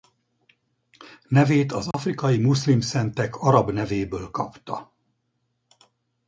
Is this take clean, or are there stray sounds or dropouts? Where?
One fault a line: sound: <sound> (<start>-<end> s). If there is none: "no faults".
sound: dropout (1.9-1.9 s)